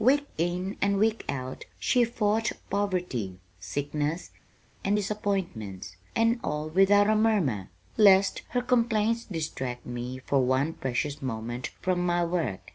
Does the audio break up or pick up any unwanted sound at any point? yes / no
no